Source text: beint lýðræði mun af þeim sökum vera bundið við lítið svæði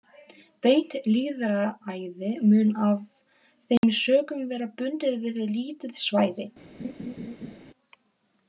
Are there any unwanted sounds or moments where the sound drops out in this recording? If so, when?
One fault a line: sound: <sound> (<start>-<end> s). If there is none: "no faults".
sound: dropout (3.8-3.8 s)
sound: laugh (6.8-7.6 s)